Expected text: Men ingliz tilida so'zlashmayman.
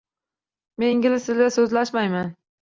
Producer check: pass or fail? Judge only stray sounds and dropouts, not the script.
pass